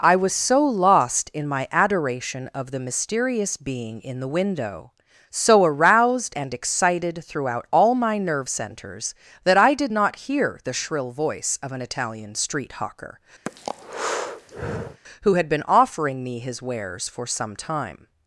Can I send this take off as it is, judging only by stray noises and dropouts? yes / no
no